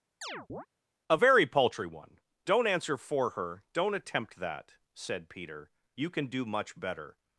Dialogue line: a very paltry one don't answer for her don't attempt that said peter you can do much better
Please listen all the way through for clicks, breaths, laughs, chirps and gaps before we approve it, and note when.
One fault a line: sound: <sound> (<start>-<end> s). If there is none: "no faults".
sound: chirp (0.2-0.7 s)